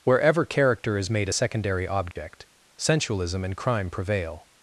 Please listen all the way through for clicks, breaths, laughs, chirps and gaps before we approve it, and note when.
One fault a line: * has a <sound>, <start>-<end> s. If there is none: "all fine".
* has a dropout, 2.1-2.2 s